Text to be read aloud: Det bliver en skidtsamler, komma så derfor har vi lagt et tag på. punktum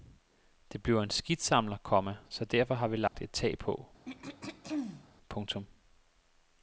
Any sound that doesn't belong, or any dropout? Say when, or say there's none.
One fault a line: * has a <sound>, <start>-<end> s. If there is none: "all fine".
* has a dropout, 3.1-3.1 s
* has a throat clearing, 4.0-5.1 s